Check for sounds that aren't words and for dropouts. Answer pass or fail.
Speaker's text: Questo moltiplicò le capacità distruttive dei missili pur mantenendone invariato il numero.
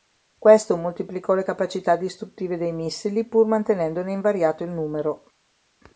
pass